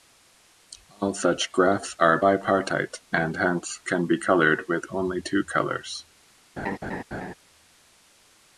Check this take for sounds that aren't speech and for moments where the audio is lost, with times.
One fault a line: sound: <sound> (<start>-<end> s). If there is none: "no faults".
sound: laugh (6.6-7.3 s)